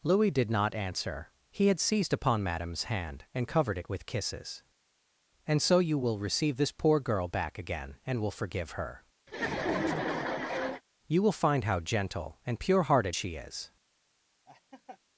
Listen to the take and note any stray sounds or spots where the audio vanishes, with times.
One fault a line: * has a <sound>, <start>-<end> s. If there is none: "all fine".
* has a laugh, 9.3-10.8 s
* has a laugh, 14.5-15.0 s